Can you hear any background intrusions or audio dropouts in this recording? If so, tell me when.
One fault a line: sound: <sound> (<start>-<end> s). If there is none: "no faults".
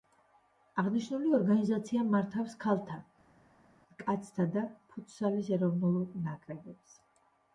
no faults